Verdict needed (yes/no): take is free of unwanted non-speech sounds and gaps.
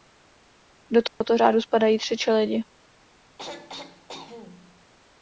no